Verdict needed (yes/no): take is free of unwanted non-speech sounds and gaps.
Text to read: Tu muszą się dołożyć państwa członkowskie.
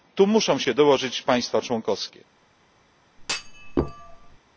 no